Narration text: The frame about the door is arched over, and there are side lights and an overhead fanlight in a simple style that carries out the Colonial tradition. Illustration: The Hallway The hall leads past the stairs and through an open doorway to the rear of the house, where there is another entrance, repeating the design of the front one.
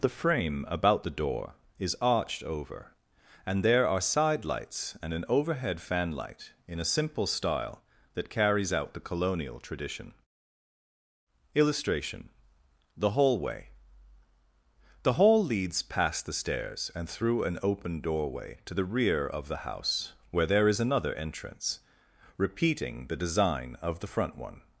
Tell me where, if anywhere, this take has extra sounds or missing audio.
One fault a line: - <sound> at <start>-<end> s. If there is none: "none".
none